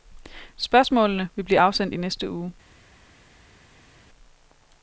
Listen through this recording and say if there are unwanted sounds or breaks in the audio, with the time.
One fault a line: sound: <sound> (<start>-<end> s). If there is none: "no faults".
no faults